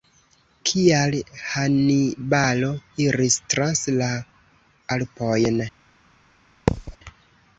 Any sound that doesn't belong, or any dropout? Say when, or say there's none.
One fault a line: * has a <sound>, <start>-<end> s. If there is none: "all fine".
* has a thud, 6.7-7.0 s